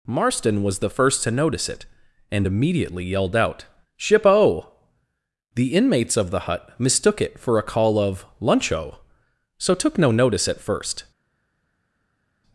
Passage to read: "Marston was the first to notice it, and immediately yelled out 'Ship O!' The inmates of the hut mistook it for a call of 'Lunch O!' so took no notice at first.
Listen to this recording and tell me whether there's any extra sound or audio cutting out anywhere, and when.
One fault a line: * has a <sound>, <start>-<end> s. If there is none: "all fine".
all fine